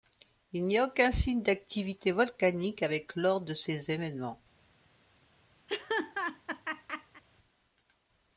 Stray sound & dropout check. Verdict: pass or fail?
fail